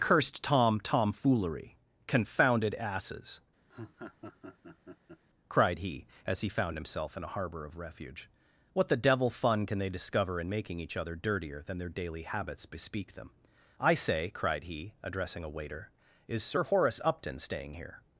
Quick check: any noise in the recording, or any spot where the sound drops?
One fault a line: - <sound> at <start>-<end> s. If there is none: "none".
- laugh at 3.7-5.2 s